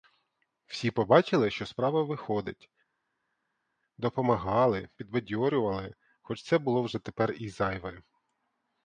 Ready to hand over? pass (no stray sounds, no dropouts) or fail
pass